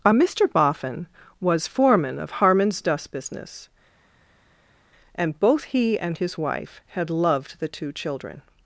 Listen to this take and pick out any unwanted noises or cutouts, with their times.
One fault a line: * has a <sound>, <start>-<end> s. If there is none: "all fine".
all fine